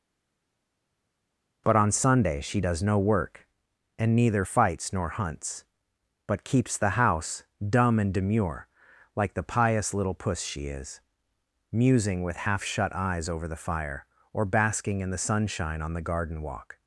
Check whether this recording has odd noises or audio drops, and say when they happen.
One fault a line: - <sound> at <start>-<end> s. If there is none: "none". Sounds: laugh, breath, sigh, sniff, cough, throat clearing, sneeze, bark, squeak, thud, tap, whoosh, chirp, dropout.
none